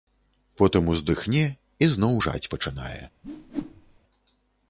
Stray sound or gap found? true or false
true